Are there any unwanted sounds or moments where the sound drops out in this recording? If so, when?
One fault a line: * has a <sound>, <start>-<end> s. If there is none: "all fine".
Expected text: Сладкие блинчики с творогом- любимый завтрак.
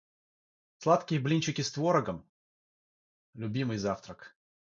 all fine